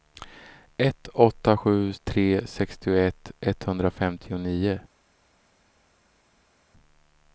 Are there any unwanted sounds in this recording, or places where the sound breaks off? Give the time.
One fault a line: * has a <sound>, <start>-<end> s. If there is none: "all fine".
all fine